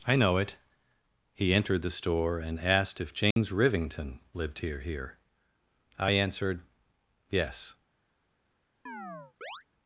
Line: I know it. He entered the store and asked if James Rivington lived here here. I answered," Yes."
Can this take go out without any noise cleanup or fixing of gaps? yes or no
no